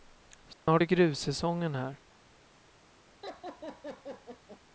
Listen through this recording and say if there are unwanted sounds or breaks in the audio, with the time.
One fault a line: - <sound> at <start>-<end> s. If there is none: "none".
- dropout at 0.5-0.7 s
- laugh at 3.2-4.6 s